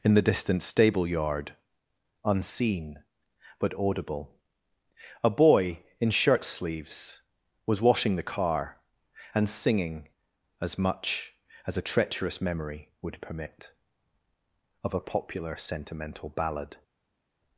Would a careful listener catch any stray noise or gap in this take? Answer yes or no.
no